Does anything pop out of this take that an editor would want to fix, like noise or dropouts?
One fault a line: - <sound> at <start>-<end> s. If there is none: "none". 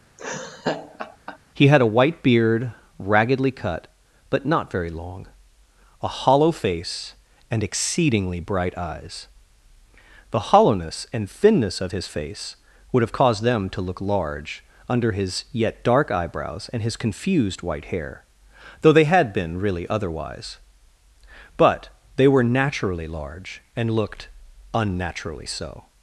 - laugh at 0.2-1.4 s